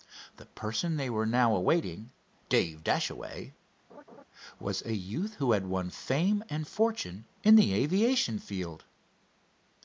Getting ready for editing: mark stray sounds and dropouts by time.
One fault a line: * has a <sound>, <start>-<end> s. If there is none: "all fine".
* has a laugh, 3.9-4.2 s